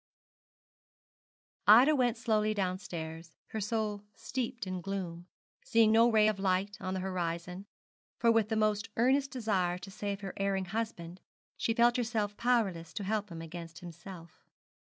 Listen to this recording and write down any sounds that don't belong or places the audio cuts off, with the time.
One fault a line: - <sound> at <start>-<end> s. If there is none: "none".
none